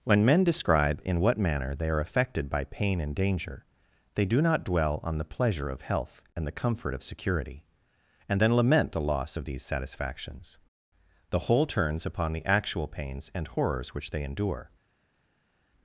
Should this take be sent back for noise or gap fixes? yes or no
no